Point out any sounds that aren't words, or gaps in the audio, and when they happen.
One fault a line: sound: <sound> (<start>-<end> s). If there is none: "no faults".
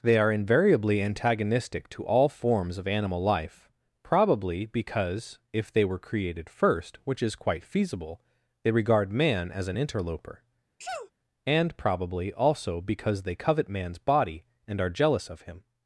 sound: sneeze (10.8-11.1 s)